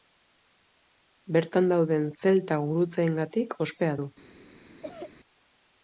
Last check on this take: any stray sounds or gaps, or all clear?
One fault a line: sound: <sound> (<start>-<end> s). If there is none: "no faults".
sound: cough (4.8-5.1 s)